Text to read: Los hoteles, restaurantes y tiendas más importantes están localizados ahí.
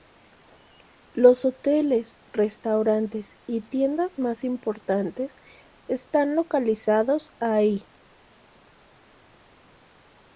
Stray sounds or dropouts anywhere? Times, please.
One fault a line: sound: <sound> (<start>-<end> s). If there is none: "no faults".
no faults